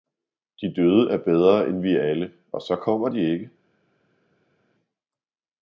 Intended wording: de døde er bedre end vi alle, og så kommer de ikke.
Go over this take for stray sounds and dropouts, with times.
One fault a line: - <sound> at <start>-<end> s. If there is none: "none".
none